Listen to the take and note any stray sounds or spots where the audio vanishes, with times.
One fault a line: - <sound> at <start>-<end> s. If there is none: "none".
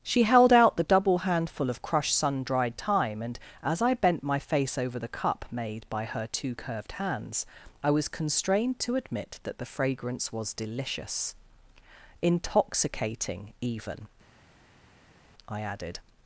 none